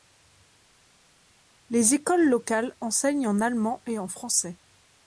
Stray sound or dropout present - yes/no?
no